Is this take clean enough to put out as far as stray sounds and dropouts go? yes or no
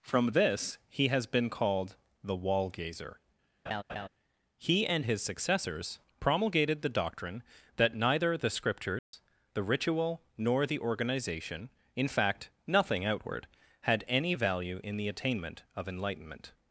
no